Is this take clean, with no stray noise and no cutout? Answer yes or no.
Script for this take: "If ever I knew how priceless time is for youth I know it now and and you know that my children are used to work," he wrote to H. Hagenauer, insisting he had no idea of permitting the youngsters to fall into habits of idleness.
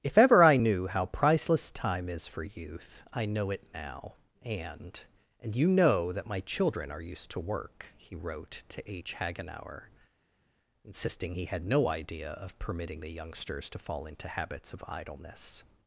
yes